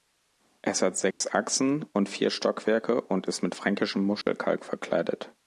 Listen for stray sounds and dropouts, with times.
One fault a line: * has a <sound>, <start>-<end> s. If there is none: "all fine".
* has a dropout, 1.1-1.2 s
* has a dropout, 4.2-4.3 s